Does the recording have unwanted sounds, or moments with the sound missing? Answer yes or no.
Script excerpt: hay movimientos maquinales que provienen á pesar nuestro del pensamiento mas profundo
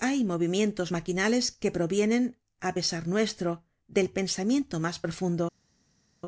no